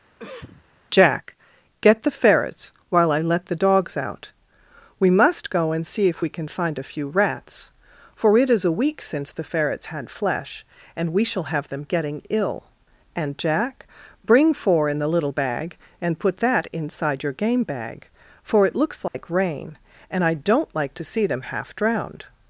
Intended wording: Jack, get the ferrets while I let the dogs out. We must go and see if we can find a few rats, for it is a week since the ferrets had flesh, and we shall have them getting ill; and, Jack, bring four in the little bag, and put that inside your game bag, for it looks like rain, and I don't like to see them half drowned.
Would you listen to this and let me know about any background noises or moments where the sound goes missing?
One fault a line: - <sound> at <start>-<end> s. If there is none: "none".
- cough at 0.2-0.7 s
- dropout at 19.1-19.1 s